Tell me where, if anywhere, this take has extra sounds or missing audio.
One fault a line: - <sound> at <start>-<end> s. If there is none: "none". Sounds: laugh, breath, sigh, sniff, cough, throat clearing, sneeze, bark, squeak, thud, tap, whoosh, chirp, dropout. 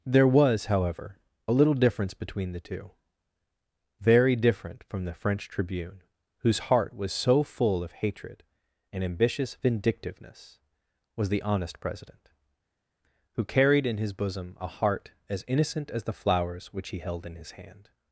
none